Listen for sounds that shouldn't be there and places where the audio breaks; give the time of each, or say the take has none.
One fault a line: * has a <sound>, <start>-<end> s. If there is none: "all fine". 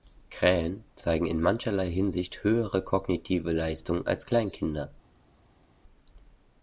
all fine